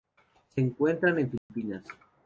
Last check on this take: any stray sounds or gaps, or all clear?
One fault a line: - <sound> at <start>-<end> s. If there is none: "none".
- dropout at 1.4-1.5 s